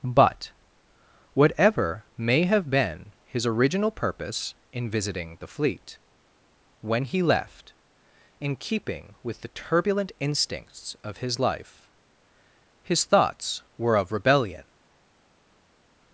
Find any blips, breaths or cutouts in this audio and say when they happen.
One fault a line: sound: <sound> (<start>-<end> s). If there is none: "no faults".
no faults